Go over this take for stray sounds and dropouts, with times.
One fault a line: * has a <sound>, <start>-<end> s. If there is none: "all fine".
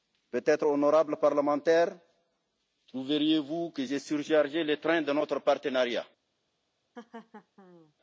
* has a laugh, 7.0-7.9 s